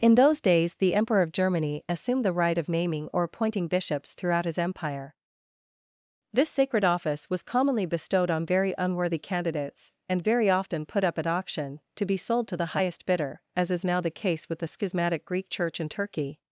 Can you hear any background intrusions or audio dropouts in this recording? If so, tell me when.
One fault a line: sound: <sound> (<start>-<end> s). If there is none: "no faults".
no faults